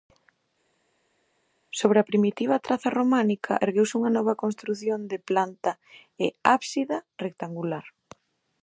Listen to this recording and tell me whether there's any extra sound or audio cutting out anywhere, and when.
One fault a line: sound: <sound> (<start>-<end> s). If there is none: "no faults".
no faults